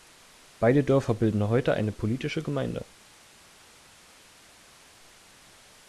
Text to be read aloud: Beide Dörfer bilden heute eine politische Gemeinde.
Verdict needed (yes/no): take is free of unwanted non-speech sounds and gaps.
yes